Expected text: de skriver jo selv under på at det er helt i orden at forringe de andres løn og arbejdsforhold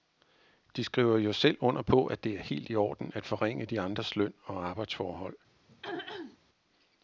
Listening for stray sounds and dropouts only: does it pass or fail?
fail